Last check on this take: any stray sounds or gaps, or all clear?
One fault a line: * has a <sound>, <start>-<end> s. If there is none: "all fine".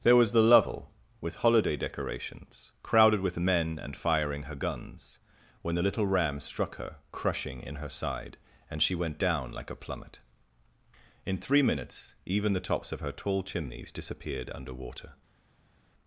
all fine